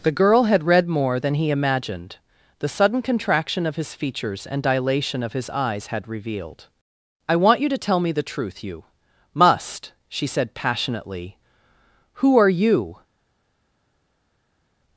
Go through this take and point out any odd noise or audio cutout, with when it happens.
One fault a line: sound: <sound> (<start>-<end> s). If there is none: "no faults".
no faults